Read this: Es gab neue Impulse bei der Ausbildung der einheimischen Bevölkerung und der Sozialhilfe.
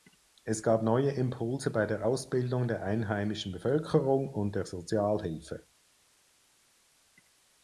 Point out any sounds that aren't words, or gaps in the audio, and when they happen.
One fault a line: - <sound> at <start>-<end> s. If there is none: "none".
none